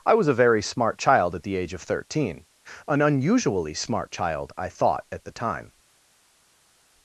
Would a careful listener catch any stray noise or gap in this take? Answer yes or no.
no